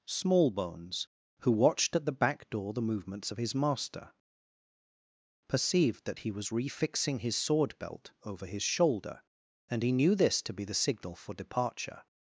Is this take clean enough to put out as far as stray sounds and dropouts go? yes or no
yes